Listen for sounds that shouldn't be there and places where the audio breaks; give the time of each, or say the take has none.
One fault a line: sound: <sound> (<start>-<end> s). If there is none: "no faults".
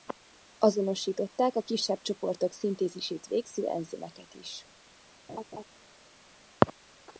sound: laugh (5.3-5.6 s)